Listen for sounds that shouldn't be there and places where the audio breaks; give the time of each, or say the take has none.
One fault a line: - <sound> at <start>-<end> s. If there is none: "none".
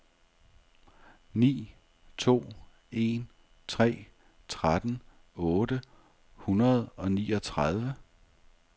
none